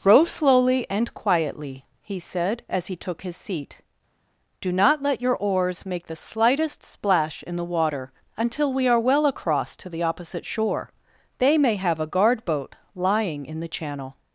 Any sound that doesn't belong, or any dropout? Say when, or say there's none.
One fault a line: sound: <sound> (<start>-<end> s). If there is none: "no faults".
no faults